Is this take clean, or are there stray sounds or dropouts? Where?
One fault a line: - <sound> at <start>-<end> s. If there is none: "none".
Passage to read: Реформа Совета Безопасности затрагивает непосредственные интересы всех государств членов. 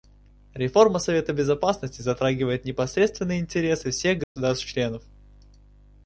- dropout at 4.2-4.4 s